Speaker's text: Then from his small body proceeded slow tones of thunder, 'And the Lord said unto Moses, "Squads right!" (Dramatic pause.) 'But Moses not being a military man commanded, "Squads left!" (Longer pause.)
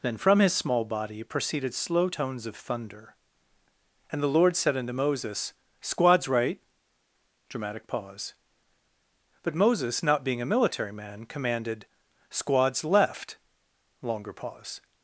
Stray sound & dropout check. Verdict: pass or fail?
pass